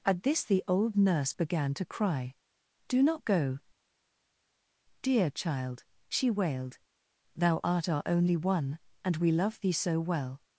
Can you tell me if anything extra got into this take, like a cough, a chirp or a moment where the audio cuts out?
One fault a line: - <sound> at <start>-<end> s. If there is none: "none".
none